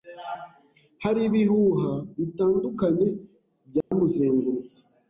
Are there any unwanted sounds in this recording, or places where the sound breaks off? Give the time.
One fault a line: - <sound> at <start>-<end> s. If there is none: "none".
- dropout at 3.8-3.9 s